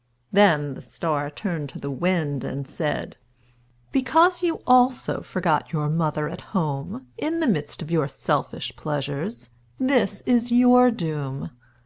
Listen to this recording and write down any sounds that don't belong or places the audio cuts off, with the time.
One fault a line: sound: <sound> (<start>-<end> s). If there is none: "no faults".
no faults